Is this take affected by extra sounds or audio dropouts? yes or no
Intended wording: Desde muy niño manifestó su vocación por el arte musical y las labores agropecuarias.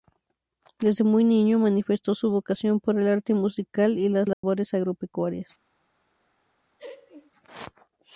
yes